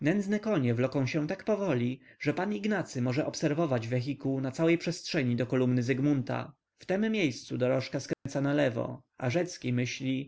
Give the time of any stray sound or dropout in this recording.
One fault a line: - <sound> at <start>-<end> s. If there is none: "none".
- dropout at 8.1-8.3 s